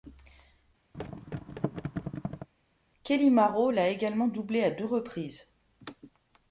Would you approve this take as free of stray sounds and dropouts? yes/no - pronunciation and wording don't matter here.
no